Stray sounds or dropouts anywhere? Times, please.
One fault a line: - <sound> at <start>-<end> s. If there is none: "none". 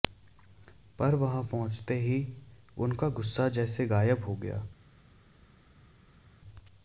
none